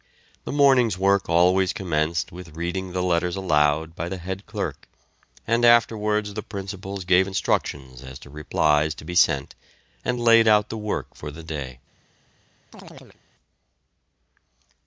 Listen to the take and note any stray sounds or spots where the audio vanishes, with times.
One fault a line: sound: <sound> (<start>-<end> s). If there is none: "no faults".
sound: chirp (12.7-13.2 s)